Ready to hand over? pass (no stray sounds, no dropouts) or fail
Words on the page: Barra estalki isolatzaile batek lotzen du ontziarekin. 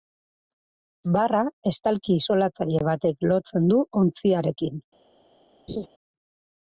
fail